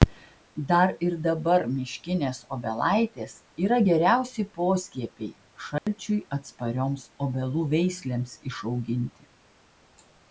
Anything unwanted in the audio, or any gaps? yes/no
yes